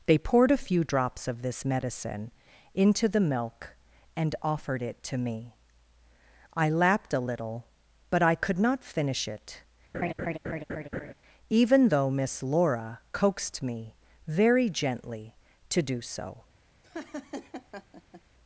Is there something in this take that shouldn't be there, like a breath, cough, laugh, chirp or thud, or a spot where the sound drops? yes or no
yes